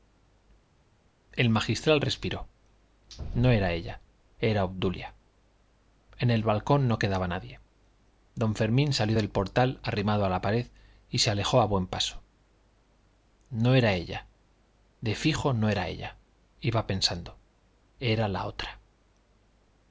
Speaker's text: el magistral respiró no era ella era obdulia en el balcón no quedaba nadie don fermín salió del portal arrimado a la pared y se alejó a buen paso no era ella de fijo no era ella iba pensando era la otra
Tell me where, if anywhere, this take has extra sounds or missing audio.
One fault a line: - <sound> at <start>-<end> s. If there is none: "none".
none